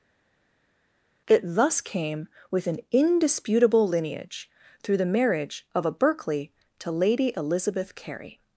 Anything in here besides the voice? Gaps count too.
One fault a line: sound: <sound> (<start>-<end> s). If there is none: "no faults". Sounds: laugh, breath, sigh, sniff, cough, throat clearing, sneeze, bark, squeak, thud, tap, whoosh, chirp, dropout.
no faults